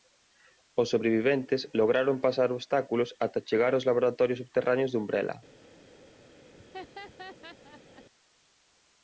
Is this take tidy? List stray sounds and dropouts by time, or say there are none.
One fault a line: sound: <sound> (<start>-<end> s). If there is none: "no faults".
sound: laugh (6.5-8.0 s)